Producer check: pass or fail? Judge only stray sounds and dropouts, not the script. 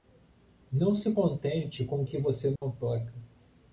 fail